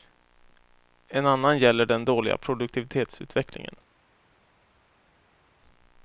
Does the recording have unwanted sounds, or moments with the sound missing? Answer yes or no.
no